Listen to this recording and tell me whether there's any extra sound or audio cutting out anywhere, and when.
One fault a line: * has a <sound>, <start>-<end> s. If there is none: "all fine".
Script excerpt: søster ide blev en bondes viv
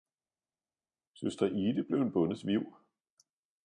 all fine